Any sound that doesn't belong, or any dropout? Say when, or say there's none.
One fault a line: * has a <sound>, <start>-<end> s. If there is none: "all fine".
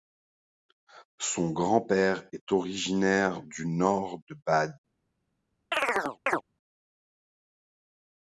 * has a chirp, 5.7-6.4 s